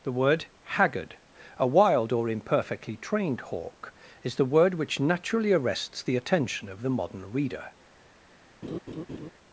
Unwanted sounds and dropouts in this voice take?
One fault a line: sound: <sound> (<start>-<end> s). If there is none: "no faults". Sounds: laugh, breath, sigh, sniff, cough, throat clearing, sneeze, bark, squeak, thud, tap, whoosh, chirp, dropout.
sound: laugh (8.6-9.3 s)